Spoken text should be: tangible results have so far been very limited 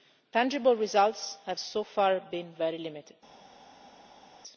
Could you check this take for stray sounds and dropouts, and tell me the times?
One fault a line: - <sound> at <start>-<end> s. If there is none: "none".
none